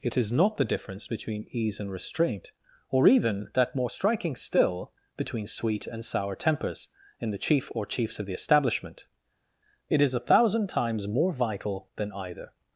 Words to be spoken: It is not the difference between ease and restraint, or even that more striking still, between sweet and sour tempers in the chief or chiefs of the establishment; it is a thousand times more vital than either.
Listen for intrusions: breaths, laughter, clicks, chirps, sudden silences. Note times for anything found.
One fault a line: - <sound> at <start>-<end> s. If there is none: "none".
none